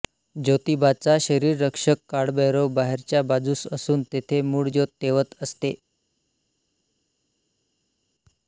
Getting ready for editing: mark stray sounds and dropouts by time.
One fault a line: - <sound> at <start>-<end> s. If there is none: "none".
none